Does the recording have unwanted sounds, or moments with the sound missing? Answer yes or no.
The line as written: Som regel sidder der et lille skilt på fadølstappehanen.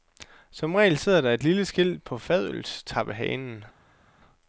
no